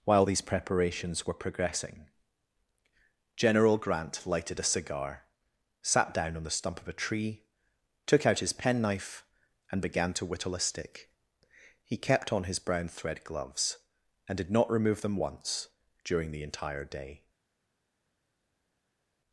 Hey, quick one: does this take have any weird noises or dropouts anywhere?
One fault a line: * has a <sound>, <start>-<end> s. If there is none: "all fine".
all fine